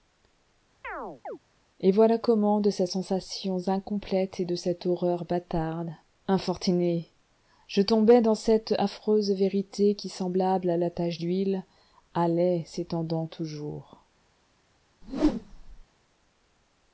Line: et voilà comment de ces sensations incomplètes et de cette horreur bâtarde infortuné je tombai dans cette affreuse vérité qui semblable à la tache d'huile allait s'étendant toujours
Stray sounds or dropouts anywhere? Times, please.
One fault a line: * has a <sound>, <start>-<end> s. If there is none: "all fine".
* has a chirp, 0.8-1.4 s
* has a whoosh, 15.0-15.8 s